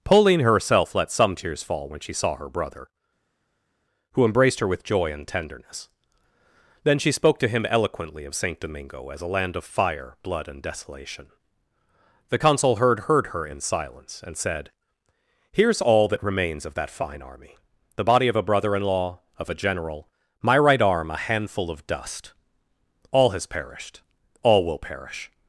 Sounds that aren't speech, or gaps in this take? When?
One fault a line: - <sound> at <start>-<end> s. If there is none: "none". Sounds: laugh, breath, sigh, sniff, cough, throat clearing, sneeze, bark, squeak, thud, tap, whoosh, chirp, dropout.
none